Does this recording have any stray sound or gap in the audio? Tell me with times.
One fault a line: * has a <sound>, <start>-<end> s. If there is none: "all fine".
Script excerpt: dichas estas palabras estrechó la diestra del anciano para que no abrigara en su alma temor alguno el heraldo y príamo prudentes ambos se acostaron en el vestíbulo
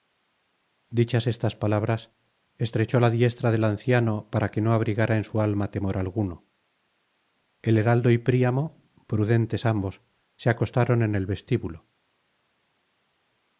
all fine